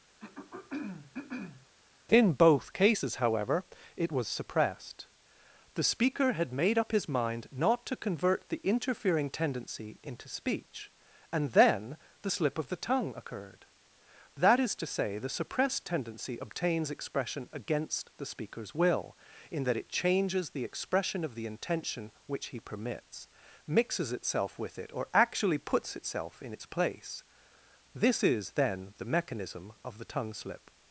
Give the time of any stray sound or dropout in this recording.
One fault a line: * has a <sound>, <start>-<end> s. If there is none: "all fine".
* has a throat clearing, 0.2-1.7 s